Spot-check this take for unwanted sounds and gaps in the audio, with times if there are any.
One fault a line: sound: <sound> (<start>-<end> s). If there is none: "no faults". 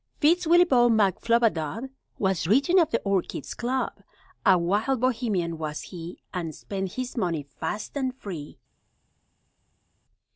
no faults